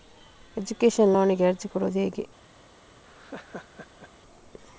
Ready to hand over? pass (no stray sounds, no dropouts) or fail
fail